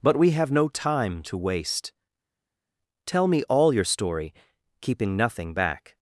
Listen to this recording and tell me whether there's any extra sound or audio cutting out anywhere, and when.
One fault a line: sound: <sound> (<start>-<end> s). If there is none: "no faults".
no faults